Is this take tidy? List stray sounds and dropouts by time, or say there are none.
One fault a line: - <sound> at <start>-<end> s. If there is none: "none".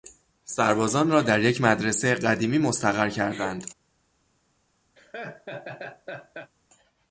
- laugh at 5.0-6.5 s